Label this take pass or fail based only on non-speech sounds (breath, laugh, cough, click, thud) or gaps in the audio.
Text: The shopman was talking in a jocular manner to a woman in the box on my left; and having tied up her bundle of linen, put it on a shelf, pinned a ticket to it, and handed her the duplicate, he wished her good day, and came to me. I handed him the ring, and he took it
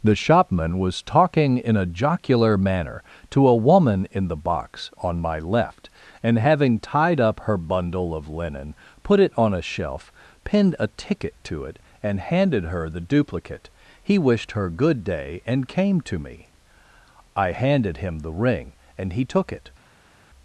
pass